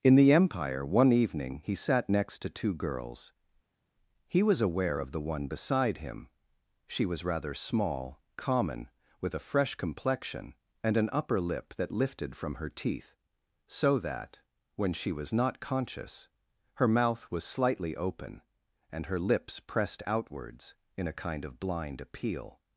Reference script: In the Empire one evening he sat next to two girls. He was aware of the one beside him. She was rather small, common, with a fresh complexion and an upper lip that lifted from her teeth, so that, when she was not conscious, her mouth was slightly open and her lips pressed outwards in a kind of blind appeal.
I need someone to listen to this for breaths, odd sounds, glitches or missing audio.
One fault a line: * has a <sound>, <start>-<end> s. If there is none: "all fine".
all fine